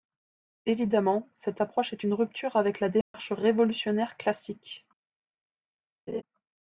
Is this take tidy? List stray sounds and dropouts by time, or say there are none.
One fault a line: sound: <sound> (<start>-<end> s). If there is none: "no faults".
sound: dropout (3.0-3.1 s)
sound: laugh (6.1-6.2 s)